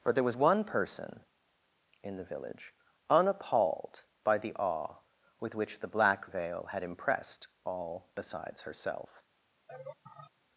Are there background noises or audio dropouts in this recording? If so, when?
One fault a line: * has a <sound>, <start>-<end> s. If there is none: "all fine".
* has a laugh, 9.7-10.3 s